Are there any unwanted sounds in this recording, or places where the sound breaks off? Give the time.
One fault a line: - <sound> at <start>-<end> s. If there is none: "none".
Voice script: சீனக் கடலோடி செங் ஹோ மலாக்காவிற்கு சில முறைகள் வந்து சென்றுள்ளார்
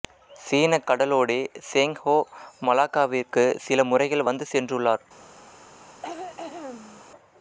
- throat clearing at 5.8-7.0 s